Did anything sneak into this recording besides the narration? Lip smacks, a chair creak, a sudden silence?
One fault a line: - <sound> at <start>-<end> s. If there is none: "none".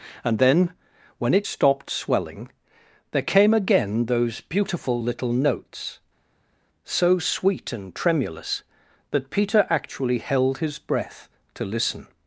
none